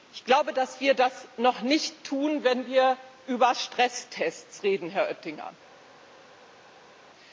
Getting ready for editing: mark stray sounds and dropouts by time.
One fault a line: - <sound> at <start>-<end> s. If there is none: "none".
none